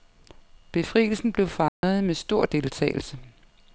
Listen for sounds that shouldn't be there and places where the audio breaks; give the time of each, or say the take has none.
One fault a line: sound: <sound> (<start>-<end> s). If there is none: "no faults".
sound: dropout (1.7-1.8 s)